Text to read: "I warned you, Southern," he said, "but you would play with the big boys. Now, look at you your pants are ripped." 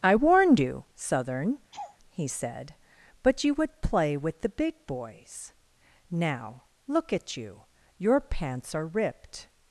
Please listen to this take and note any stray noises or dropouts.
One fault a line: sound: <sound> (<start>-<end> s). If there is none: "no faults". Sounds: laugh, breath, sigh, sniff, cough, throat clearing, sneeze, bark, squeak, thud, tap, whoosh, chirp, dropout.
sound: laugh (1.7-2.0 s)